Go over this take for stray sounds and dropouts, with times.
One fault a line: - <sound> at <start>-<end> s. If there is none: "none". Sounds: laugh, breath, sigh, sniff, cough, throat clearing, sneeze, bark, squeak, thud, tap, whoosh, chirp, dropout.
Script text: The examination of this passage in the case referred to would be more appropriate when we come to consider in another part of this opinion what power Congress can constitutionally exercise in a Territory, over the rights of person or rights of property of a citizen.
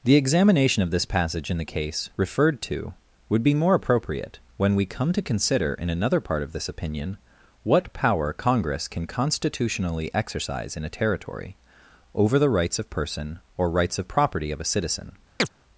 - chirp at 15.4-15.5 s